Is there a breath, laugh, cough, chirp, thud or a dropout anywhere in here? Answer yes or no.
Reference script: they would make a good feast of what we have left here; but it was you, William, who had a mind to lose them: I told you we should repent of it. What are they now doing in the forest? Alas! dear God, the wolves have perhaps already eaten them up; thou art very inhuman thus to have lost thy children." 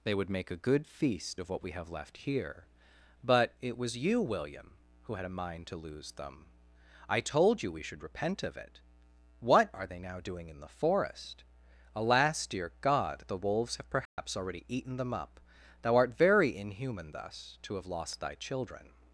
yes